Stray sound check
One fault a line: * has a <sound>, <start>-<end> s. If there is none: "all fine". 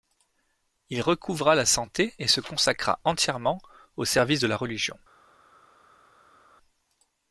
all fine